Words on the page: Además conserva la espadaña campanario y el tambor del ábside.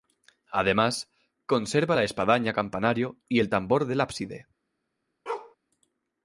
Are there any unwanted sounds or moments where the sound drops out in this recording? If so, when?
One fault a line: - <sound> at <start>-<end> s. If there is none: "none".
- bark at 5.3-5.6 s